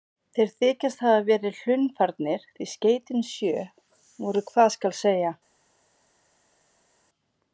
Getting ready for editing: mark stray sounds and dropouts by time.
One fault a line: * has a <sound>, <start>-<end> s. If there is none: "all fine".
all fine